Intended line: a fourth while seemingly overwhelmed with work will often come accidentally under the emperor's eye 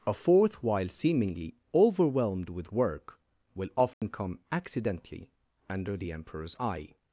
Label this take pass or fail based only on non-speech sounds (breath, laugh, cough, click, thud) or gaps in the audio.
fail